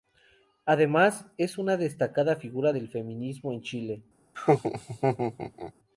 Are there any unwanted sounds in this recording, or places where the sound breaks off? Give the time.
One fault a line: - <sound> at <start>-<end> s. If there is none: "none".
- laugh at 4.3-5.7 s